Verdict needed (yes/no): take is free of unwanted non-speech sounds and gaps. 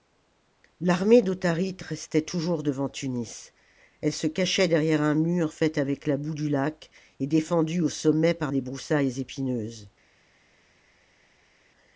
yes